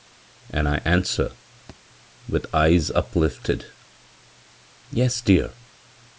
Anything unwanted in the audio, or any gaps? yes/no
yes